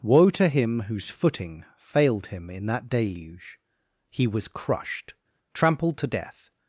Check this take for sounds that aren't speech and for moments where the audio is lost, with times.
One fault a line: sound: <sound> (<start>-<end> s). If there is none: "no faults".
no faults